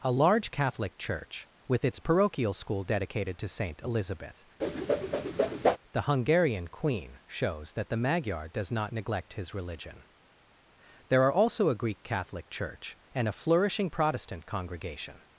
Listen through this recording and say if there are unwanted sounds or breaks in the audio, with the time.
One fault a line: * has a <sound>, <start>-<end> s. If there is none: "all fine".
* has a whoosh, 4.6-5.8 s